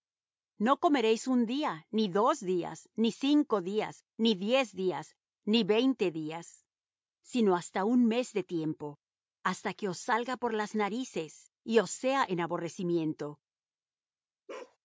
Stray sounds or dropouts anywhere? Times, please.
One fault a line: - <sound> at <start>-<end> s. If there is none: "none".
- bark at 14.5-14.8 s